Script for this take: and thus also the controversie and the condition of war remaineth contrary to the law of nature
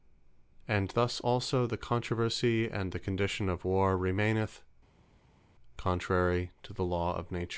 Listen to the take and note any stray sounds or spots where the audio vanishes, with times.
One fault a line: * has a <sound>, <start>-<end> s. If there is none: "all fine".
all fine